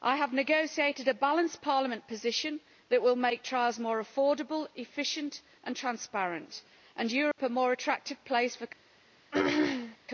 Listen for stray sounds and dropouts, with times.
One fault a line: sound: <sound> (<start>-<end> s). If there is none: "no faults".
sound: dropout (7.3-7.4 s)
sound: throat clearing (9.3-10.0 s)